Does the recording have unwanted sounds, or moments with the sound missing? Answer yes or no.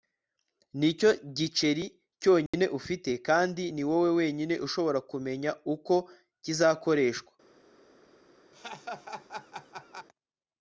yes